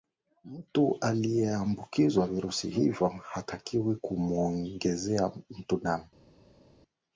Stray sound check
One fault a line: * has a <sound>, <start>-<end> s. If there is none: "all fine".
all fine